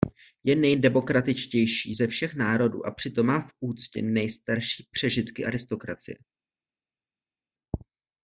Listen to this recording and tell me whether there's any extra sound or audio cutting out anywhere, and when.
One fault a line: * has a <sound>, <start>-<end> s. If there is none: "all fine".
all fine